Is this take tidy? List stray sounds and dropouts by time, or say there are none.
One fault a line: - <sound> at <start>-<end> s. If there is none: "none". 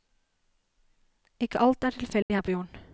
- dropout at 2.2-2.3 s